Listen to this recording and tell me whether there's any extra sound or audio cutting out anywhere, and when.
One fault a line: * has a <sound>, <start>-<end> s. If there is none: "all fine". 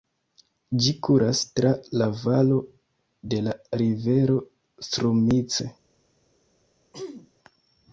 * has a throat clearing, 6.9-7.3 s